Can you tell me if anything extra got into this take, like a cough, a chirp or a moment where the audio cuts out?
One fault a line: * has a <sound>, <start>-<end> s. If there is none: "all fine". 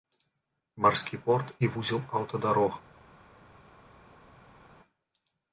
all fine